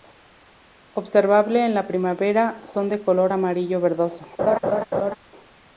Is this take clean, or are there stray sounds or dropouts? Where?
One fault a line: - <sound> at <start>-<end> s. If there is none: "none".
- laugh at 4.4-5.2 s